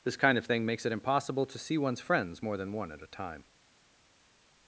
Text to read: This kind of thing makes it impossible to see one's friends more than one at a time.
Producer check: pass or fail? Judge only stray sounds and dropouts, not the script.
pass